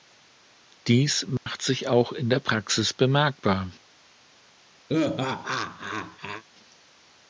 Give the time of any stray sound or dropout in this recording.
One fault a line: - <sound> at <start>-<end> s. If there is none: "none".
- dropout at 1.4-1.5 s
- laugh at 4.9-6.4 s